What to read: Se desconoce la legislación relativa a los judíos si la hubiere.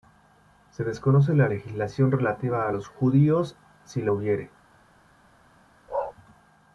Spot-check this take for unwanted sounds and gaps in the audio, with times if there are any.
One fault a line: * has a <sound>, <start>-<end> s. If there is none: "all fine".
* has a bark, 5.9-6.1 s